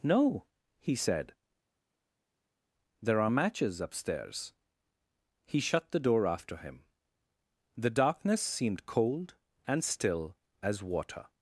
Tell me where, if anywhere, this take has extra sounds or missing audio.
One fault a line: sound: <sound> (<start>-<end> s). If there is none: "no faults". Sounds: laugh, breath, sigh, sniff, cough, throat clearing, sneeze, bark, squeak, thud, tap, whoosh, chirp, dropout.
no faults